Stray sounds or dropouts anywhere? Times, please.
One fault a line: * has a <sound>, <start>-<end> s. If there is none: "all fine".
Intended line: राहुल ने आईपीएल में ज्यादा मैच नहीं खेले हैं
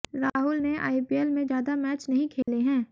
* has a dropout, 2.4-2.5 s